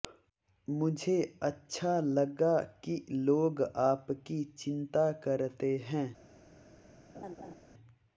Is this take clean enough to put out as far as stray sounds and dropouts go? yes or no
no